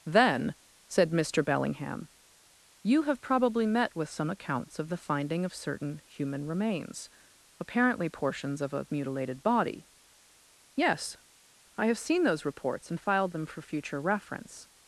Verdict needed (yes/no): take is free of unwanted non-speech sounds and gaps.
yes